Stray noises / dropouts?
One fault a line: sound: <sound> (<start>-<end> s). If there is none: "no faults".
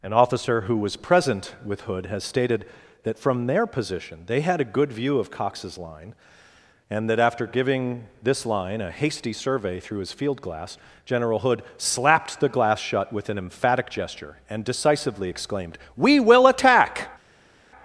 no faults